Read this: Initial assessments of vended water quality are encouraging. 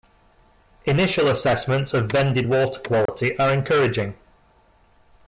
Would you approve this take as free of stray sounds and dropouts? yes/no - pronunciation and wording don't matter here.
no